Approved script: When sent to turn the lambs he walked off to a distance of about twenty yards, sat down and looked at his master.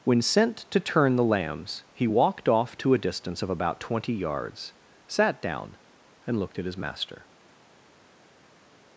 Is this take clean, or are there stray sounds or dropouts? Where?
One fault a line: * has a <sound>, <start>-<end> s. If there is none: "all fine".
all fine